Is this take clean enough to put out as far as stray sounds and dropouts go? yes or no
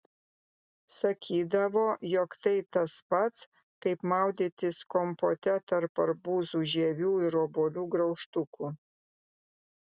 yes